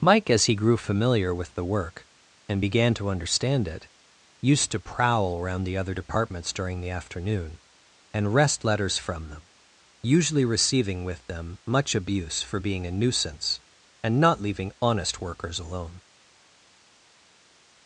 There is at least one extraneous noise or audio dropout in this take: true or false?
false